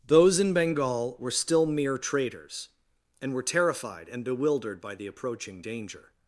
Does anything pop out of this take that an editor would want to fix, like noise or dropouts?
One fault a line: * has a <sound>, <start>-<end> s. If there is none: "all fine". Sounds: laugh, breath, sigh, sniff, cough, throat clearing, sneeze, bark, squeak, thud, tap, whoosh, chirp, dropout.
all fine